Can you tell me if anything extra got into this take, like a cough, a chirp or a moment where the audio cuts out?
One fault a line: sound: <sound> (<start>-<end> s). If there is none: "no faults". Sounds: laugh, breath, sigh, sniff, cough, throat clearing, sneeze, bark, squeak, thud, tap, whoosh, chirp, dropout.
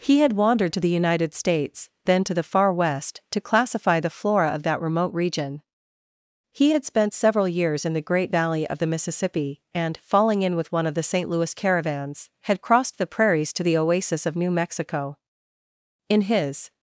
no faults